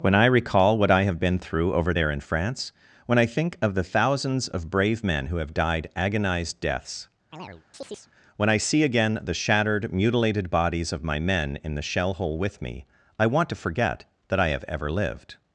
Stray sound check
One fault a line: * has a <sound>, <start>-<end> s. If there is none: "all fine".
* has a chirp, 7.3-8.1 s